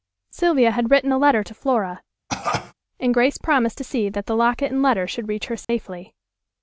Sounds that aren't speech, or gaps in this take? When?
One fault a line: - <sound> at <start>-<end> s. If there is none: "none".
- cough at 2.3-2.7 s
- dropout at 5.6-5.7 s